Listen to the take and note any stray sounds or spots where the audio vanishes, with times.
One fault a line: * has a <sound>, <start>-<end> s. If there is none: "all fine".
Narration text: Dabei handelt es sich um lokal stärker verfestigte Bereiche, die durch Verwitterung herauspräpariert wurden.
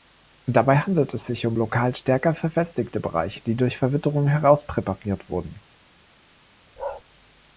* has a bark, 6.8-7.0 s